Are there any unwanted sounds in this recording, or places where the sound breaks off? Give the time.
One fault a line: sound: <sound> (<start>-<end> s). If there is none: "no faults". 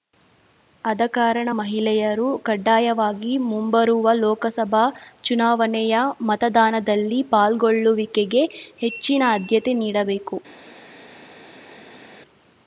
no faults